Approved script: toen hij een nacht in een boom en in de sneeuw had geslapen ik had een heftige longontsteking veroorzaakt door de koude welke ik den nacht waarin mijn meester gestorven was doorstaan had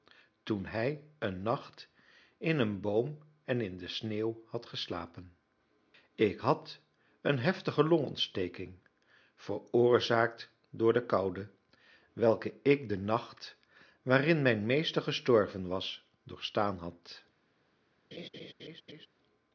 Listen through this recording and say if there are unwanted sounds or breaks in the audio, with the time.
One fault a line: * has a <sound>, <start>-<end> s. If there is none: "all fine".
* has a laugh, 18.1-19.1 s